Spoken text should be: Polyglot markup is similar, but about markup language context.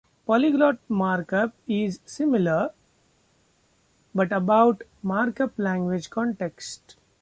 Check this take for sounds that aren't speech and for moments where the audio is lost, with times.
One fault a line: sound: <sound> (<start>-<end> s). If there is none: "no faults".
no faults